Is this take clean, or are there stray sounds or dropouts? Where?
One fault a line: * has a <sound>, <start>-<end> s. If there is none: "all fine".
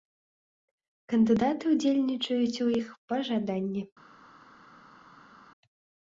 all fine